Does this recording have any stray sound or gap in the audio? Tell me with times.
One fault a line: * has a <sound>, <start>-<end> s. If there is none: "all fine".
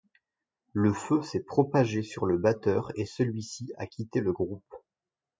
all fine